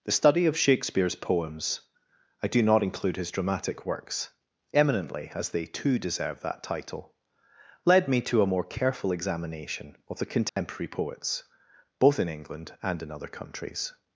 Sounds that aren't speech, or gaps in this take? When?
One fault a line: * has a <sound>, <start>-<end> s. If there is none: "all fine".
* has a dropout, 10.5-10.6 s